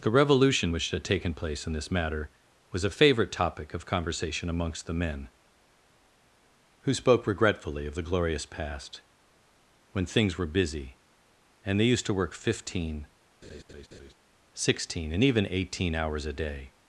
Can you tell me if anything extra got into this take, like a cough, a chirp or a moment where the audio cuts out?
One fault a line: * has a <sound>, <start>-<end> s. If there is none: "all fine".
* has a laugh, 13.4-14.1 s